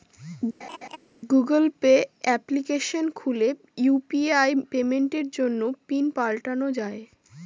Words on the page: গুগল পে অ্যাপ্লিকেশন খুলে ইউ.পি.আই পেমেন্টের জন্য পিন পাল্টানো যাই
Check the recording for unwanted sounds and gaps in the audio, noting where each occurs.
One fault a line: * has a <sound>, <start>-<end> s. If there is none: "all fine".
* has a laugh, 0.6-1.0 s